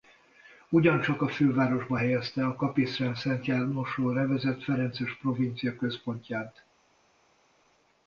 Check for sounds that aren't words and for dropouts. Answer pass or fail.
pass